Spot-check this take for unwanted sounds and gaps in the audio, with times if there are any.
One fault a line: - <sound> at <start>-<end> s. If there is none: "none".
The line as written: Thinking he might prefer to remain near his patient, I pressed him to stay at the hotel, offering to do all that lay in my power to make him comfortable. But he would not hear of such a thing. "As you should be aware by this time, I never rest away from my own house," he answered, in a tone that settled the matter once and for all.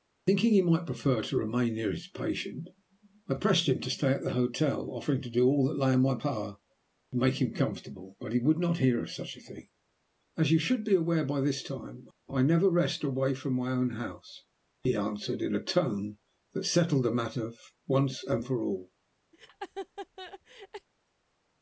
- laugh at 19.3-20.9 s